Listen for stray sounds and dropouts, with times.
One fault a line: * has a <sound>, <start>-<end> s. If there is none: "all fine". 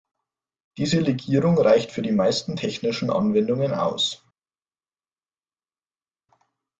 all fine